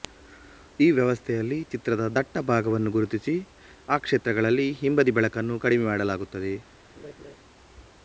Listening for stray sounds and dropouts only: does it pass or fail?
fail